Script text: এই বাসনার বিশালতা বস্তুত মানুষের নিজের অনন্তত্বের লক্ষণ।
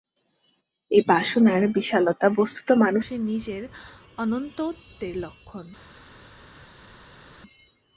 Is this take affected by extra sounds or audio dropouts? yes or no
no